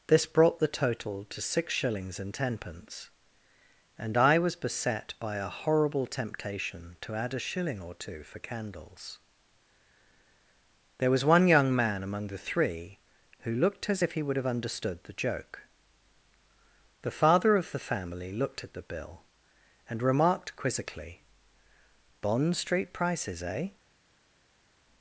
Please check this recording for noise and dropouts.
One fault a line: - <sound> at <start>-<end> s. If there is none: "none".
none